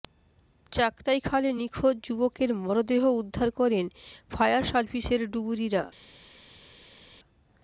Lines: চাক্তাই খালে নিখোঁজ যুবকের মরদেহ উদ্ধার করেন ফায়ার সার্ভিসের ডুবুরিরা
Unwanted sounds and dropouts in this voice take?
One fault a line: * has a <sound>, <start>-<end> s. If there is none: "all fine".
all fine